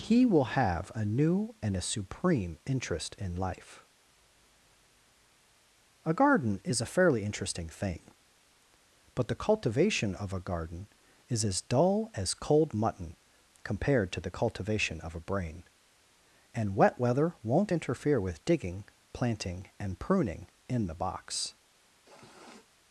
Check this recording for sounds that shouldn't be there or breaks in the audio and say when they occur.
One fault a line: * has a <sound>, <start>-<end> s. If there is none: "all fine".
* has a sniff, 22.0-22.7 s